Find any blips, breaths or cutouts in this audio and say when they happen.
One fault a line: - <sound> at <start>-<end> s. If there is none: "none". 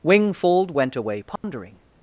- dropout at 1.4-1.4 s